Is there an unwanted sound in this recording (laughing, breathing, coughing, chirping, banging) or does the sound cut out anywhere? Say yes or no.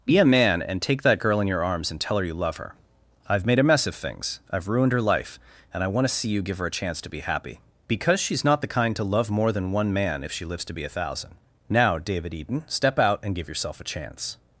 no